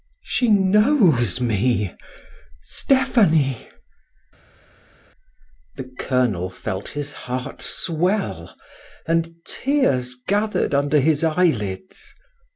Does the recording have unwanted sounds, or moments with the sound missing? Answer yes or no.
no